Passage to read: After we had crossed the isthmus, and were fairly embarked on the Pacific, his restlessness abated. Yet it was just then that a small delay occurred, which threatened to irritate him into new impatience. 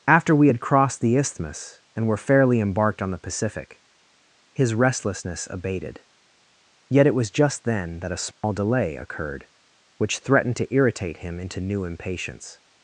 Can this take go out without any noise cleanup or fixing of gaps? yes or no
no